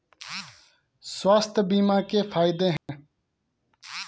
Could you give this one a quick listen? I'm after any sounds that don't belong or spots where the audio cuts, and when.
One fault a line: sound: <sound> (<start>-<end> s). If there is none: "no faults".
sound: dropout (2.8-2.9 s)